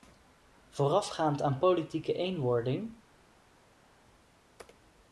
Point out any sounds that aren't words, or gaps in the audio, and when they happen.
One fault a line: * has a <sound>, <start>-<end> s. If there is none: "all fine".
all fine